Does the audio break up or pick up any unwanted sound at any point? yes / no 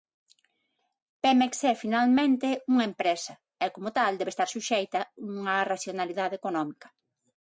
no